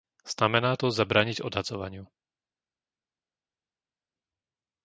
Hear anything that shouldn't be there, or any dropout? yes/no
no